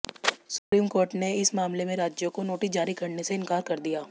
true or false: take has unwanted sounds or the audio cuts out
true